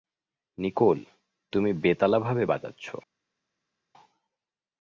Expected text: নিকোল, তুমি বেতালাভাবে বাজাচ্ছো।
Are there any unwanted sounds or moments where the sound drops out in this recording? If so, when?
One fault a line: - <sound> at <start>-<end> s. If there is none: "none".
none